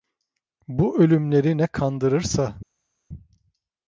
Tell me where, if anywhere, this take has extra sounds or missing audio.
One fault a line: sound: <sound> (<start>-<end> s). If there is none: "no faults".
no faults